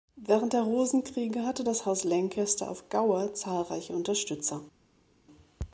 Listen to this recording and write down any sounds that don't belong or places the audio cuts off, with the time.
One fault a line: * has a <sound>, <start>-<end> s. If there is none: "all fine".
all fine